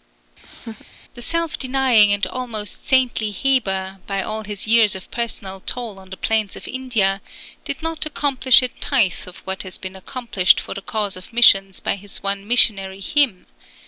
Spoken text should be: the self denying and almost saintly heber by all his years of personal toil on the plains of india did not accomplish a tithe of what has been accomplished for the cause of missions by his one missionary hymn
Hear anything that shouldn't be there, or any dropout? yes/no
yes